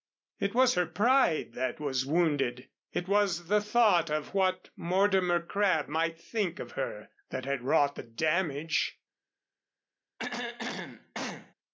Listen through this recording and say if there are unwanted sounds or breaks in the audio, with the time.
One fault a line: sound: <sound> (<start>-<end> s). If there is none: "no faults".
sound: throat clearing (10.2-11.5 s)